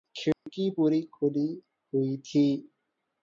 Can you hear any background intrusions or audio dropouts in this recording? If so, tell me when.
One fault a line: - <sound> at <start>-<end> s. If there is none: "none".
- dropout at 0.3-0.5 s